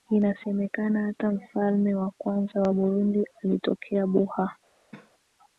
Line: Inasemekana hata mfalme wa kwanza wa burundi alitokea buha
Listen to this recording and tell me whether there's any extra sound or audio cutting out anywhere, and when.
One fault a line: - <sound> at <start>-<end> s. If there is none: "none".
- cough at 4.9-5.1 s